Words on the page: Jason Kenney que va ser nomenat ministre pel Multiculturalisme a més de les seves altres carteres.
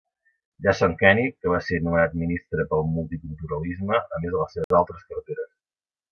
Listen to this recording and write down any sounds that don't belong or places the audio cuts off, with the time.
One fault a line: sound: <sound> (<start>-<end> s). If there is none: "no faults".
sound: dropout (4.6-4.7 s)